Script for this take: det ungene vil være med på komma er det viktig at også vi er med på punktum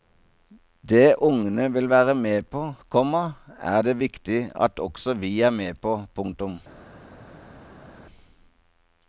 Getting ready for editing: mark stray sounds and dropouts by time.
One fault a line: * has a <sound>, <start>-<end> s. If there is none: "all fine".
all fine